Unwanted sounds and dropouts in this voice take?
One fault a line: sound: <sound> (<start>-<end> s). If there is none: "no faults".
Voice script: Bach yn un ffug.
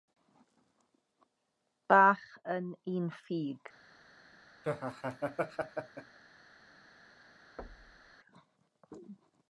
sound: laugh (4.6-6.2 s)
sound: thud (7.6-8.2 s)